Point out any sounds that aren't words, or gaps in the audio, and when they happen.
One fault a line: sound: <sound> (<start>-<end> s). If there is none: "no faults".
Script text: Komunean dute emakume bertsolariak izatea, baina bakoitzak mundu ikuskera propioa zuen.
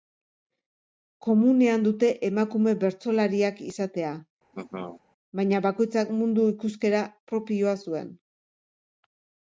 sound: laugh (4.5-5.0 s)